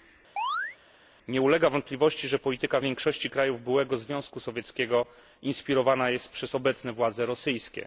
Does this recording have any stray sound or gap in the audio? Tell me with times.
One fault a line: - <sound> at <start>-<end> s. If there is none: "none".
- chirp at 0.4-0.8 s